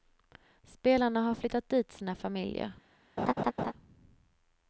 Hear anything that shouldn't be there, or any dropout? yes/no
yes